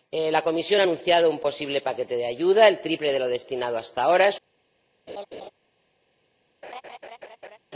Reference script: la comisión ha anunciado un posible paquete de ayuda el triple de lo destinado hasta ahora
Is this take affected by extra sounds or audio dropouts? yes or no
yes